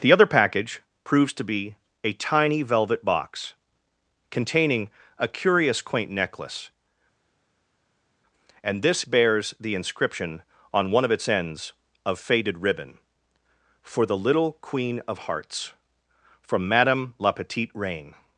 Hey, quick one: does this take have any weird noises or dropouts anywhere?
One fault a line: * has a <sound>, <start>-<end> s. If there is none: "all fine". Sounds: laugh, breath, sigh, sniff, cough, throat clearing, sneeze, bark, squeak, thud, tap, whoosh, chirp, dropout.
all fine